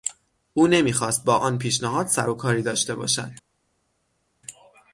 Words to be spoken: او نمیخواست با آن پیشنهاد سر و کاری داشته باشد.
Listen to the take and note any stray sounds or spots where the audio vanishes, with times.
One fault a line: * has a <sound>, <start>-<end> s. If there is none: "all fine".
all fine